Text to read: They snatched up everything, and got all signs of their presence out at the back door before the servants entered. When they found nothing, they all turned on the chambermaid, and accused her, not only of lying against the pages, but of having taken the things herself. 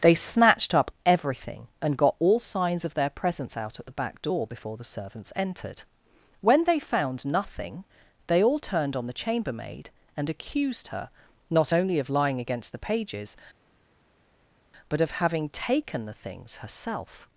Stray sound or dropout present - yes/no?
no